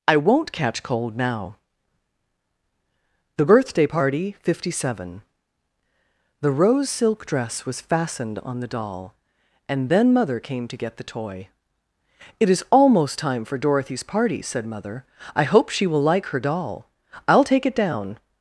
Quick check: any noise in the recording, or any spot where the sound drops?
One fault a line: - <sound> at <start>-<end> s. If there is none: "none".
none